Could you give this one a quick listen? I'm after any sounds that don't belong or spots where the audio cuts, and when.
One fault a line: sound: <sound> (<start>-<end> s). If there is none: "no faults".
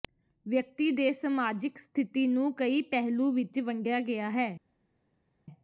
no faults